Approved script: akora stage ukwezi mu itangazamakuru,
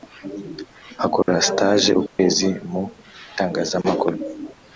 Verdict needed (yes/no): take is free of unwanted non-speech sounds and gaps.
no